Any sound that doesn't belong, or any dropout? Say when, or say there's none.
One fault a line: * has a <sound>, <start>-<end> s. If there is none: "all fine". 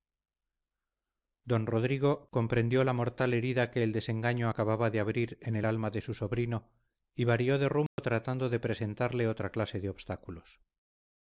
* has a dropout, 7.9-8.0 s